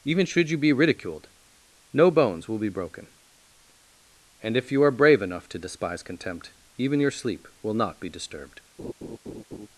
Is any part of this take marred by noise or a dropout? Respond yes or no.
yes